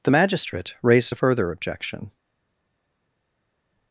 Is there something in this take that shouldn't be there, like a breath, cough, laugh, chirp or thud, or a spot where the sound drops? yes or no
no